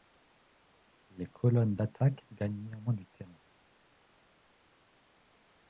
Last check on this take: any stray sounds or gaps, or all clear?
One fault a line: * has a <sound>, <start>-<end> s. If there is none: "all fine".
all fine